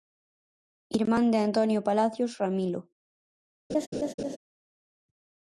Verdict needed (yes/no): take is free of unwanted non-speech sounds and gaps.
no